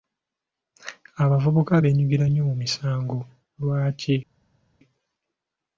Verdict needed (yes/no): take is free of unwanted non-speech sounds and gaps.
yes